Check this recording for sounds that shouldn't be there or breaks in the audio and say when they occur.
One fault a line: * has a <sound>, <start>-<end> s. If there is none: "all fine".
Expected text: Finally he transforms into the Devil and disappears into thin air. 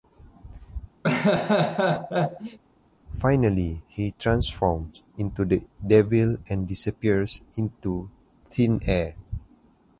* has a laugh, 1.0-2.6 s